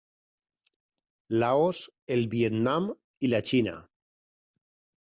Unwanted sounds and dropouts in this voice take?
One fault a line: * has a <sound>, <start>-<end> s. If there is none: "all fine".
all fine